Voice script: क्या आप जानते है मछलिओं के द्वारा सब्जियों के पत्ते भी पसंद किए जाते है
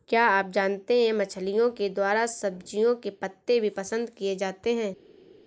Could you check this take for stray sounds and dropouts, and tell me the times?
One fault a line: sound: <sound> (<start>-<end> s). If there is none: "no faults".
no faults